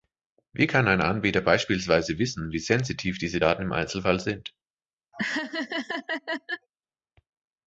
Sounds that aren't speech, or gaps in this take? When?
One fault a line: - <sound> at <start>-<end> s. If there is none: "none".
- laugh at 5.1-6.7 s